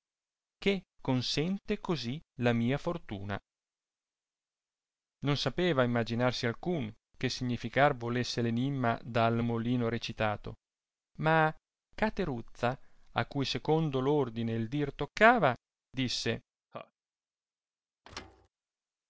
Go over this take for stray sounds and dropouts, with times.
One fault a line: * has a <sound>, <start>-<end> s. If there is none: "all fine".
* has a laugh, 16.7-16.9 s
* has a thud, 18.0-18.5 s